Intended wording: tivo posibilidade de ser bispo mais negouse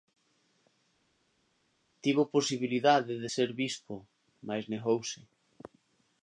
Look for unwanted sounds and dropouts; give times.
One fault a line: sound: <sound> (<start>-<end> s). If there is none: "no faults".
no faults